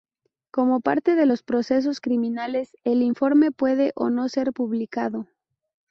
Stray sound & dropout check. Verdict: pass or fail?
pass